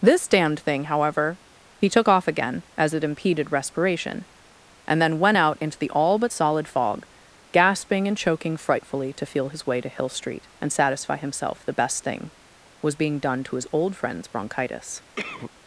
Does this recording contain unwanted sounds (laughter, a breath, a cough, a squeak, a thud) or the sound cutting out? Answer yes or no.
yes